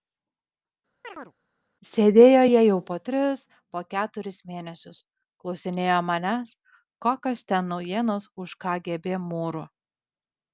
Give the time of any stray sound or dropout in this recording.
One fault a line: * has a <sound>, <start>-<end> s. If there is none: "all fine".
* has a chirp, 1.0-1.3 s